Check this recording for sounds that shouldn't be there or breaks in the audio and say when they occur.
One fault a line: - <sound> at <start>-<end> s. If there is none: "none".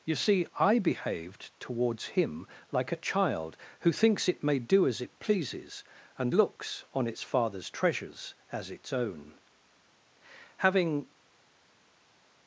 none